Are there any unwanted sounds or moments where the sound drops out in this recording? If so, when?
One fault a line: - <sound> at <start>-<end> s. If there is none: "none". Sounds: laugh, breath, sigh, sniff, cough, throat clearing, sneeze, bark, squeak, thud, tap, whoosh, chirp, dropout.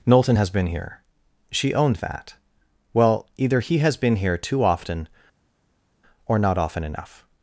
none